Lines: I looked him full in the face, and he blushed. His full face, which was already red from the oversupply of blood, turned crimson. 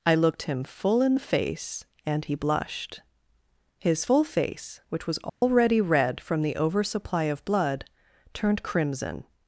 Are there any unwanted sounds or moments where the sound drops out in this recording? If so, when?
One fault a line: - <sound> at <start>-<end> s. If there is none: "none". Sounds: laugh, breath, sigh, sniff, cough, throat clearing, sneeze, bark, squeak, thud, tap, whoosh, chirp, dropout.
- dropout at 5.3-5.4 s